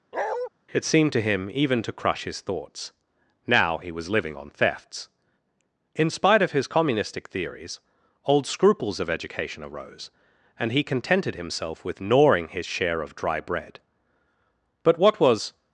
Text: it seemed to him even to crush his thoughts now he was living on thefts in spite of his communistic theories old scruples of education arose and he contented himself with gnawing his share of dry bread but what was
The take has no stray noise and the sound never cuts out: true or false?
false